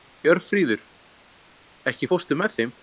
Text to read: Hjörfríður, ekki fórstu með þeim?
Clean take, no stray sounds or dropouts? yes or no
yes